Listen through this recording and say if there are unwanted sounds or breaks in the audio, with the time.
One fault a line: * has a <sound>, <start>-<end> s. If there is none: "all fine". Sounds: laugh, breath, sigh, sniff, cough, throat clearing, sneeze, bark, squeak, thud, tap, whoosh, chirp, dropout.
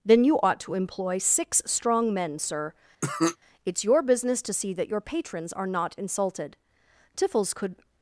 * has a cough, 3.0-3.4 s